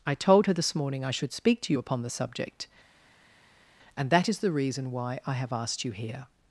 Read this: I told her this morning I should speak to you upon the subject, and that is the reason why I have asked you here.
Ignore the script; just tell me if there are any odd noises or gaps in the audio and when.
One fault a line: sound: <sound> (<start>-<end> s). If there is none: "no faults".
no faults